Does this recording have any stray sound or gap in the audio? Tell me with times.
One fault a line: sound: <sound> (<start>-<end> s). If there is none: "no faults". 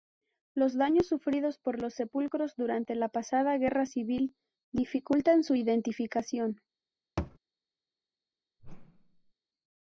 sound: thud (7.2-7.4 s)
sound: whoosh (8.6-9.3 s)